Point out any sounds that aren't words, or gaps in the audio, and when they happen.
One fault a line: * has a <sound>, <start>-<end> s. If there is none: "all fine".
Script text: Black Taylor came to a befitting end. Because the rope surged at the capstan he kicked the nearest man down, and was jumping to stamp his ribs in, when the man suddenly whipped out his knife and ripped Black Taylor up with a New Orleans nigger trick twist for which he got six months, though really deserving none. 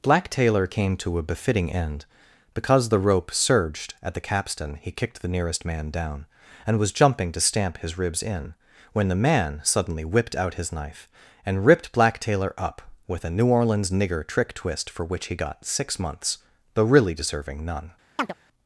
* has a chirp, 18.2-18.3 s